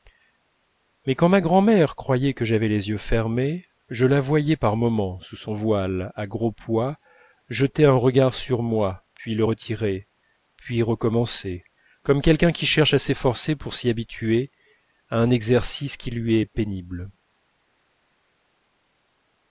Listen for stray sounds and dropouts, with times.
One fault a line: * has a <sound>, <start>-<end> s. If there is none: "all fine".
all fine